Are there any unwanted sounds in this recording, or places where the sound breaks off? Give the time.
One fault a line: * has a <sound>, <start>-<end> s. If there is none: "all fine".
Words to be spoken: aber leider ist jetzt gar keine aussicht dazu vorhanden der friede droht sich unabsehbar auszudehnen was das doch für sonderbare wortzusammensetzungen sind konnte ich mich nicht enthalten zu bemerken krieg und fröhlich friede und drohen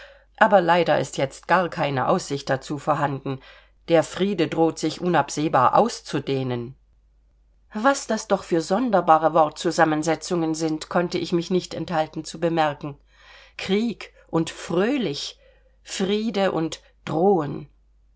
all fine